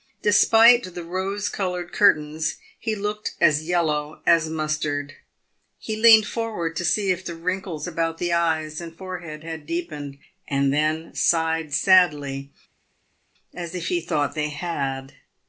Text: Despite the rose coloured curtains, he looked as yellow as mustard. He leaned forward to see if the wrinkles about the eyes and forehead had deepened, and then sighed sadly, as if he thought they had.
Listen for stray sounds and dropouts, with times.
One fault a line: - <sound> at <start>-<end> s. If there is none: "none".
none